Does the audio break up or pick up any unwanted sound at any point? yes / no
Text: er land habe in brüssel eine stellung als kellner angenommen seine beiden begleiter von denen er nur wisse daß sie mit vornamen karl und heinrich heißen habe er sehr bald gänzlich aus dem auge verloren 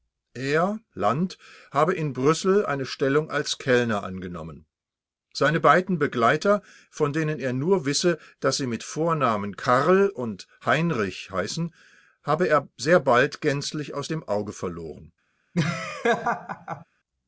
yes